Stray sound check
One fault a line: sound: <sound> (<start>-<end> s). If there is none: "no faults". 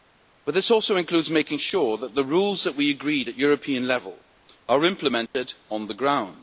sound: dropout (5.3-5.3 s)